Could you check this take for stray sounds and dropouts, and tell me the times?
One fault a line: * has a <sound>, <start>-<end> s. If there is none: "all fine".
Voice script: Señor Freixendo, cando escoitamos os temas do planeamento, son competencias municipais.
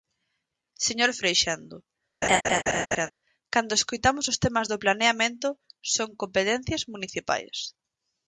* has a laugh, 2.2-3.1 s